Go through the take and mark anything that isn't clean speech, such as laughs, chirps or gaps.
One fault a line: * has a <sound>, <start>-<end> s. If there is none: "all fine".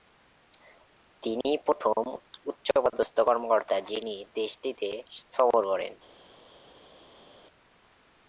all fine